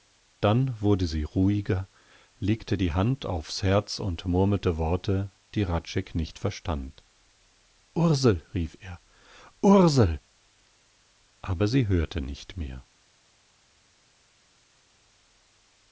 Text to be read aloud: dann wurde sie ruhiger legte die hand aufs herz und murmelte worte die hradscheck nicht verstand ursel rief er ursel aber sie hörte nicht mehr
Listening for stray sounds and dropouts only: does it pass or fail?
pass